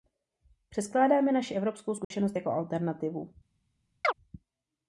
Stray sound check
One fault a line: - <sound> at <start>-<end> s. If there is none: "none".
- dropout at 2.0-2.1 s
- chirp at 4.0-4.1 s